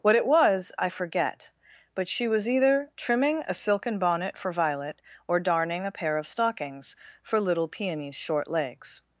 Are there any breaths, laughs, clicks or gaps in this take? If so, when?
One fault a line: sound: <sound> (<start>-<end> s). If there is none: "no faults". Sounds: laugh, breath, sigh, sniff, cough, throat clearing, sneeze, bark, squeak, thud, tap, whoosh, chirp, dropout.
no faults